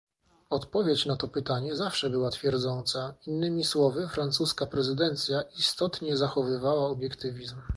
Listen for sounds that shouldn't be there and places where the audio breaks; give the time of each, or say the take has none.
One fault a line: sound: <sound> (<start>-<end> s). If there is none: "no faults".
no faults